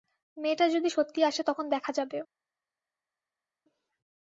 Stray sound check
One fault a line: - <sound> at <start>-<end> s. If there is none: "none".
none